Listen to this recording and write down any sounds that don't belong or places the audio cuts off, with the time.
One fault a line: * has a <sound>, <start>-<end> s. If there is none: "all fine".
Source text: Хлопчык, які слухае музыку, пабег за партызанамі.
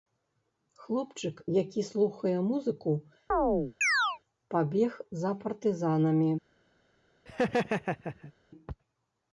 * has a chirp, 3.3-4.2 s
* has a laugh, 7.3-8.3 s